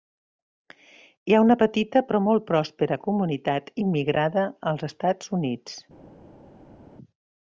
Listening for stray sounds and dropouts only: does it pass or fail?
pass